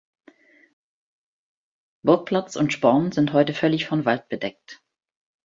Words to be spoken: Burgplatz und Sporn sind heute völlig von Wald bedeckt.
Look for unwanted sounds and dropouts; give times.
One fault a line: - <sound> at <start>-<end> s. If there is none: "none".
none